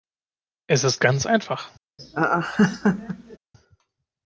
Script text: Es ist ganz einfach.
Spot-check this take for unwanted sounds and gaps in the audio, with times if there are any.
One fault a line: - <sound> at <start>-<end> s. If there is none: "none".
- laugh at 2.0-3.4 s